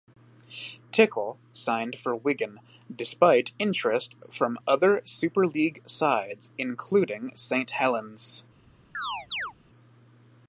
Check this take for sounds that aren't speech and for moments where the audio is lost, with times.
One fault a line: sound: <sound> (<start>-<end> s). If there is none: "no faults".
sound: chirp (8.9-9.5 s)